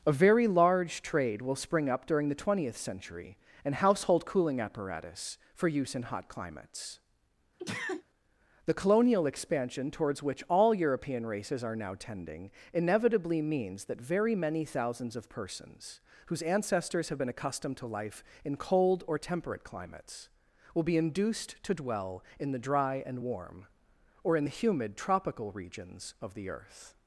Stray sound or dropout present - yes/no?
yes